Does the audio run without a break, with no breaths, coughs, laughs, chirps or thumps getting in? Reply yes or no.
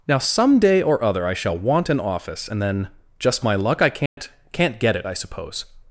no